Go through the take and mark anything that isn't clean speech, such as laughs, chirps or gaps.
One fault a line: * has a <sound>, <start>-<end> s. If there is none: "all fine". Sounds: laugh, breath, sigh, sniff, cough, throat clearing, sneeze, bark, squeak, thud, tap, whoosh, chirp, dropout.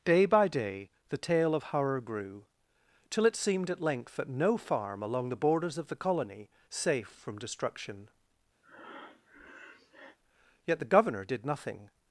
* has a breath, 8.6-10.2 s